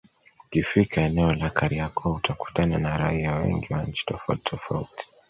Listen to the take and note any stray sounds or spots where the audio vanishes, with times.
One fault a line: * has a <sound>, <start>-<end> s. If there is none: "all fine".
all fine